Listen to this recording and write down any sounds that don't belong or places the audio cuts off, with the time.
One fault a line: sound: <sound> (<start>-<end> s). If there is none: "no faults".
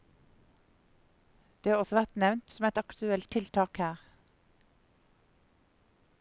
no faults